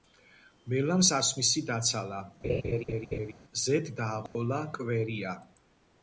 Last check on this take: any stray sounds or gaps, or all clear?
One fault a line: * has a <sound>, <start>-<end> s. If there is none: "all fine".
* has a laugh, 2.4-3.3 s
* has a dropout, 4.3-4.3 s